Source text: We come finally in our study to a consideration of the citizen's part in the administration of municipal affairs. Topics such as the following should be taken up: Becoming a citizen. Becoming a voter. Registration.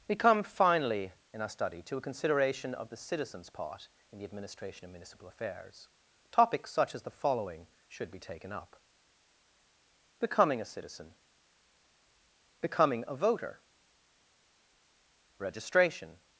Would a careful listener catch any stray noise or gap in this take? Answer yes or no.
no